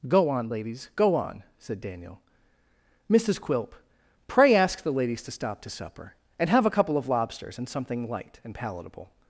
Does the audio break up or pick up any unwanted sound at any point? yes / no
no